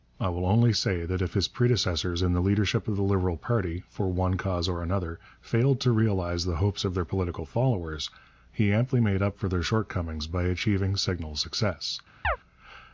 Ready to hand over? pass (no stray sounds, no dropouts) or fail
fail